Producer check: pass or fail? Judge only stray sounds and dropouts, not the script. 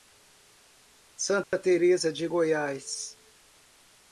fail